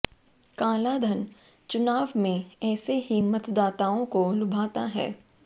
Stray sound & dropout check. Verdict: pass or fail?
pass